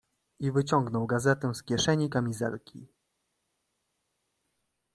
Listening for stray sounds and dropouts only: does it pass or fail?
pass